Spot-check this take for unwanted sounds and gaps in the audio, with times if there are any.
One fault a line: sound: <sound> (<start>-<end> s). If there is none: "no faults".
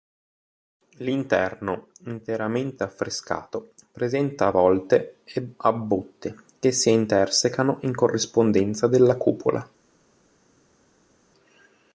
no faults